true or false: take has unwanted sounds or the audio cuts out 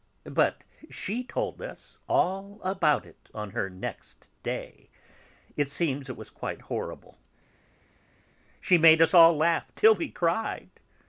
false